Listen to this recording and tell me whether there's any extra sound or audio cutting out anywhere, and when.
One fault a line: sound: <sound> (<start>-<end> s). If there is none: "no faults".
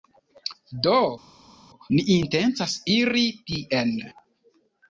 no faults